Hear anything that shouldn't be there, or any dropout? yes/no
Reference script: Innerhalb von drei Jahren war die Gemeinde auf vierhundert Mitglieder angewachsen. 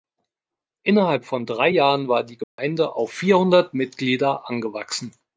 yes